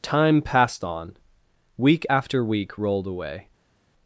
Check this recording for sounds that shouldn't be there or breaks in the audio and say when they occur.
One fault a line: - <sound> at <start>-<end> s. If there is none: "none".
none